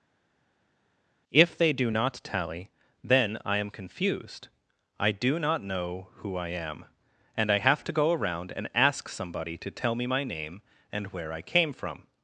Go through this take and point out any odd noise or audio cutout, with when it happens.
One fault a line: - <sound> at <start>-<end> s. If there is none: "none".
none